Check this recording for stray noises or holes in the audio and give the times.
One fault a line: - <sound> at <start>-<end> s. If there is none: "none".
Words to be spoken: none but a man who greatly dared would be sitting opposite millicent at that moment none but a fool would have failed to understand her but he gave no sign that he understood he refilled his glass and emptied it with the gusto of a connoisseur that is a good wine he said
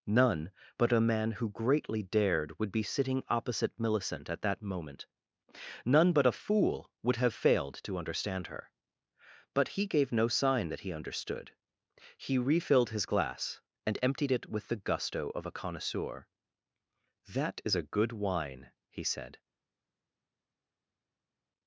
none